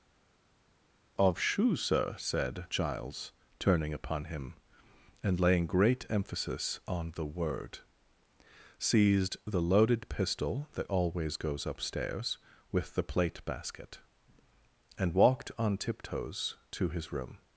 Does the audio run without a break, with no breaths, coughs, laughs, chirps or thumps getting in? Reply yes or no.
yes